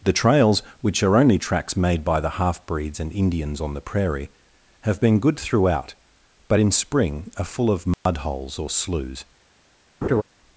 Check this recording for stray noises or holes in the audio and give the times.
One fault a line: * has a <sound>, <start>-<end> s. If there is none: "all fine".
* has a dropout, 7.9-8.1 s
* has a laugh, 10.0-10.2 s